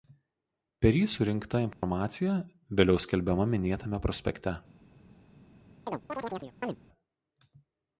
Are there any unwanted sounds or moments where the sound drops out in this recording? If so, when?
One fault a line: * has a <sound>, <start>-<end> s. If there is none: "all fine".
* has a dropout, 1.7-1.8 s
* has a chirp, 5.9-6.8 s